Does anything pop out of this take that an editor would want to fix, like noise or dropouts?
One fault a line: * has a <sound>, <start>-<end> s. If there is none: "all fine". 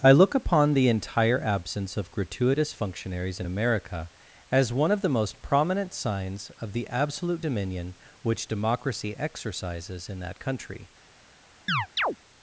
* has a chirp, 11.7-12.2 s